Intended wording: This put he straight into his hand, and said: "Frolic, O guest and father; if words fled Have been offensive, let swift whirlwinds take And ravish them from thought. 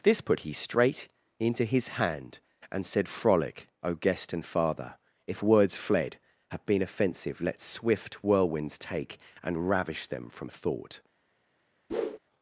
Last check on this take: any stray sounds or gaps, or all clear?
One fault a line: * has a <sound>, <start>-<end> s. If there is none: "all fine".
* has a whoosh, 11.9-12.2 s